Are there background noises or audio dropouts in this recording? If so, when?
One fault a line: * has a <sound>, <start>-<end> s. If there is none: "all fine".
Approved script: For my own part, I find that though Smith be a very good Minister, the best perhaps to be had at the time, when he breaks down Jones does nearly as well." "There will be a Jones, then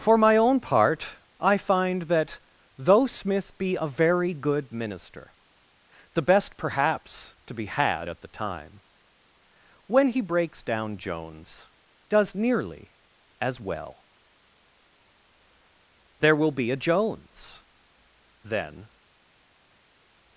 all fine